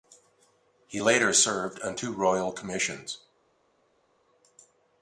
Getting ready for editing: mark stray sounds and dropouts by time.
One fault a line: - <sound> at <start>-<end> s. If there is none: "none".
none